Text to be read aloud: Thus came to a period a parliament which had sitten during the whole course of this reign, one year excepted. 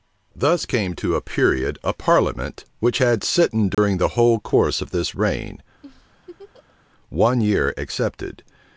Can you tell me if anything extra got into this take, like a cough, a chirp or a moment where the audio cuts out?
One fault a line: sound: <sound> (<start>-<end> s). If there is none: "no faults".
sound: dropout (3.7-3.8 s)
sound: laugh (5.8-6.8 s)